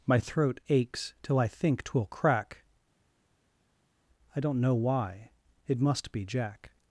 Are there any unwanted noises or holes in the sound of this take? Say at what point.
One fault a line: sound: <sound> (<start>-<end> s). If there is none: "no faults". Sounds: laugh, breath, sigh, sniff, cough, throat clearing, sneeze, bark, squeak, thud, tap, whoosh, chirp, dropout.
no faults